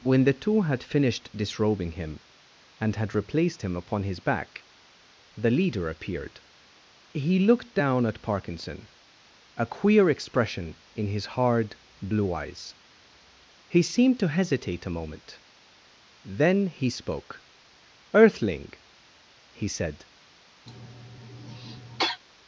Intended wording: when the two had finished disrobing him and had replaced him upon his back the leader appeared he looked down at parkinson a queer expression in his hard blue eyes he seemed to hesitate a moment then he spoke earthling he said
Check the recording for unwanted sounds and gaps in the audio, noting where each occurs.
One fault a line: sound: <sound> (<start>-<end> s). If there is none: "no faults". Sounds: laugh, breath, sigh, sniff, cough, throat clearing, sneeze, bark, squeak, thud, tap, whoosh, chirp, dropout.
sound: cough (20.7-22.2 s)